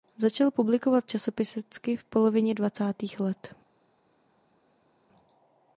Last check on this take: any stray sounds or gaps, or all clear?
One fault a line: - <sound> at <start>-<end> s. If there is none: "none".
none